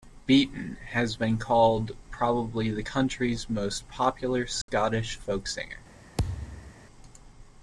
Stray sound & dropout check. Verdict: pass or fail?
fail